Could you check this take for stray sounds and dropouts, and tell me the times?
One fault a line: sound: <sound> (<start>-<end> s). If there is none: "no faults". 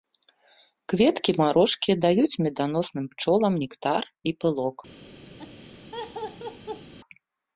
sound: laugh (5.4-6.9 s)